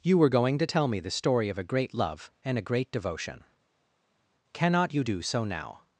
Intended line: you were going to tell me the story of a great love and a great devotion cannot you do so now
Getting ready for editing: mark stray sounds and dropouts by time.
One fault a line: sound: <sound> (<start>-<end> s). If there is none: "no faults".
no faults